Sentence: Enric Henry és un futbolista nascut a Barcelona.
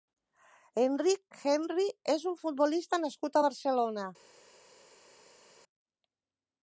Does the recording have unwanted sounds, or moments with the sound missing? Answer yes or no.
no